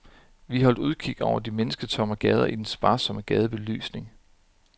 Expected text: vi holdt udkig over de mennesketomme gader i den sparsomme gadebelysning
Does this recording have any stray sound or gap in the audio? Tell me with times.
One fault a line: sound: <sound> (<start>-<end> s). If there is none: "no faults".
no faults